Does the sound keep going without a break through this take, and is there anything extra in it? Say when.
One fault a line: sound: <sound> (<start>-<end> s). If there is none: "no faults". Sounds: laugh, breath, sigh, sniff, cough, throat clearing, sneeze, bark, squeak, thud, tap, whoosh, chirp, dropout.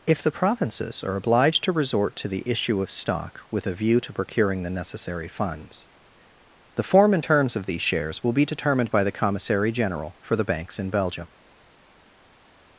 no faults